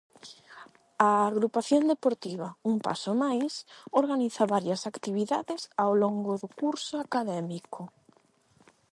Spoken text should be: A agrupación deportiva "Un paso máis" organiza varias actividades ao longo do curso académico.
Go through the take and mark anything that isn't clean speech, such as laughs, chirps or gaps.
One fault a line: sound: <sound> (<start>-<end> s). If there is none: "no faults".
no faults